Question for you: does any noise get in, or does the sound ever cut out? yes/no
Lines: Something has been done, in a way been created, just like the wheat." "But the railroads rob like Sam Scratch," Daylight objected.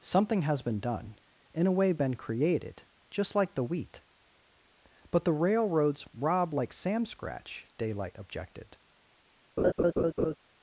yes